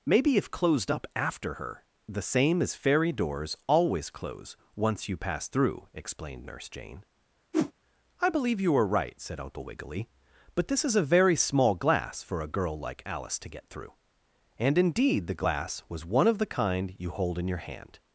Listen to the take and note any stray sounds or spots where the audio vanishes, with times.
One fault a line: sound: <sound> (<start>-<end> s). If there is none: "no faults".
sound: whoosh (7.5-7.7 s)